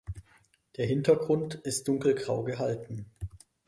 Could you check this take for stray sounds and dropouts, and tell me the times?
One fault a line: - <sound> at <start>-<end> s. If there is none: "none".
none